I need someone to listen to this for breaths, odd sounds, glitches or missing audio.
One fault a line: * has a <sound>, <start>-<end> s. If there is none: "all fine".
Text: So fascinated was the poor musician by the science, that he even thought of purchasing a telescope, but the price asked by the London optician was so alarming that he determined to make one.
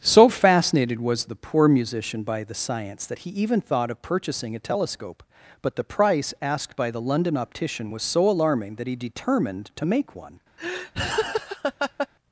* has a laugh, 10.6-12.1 s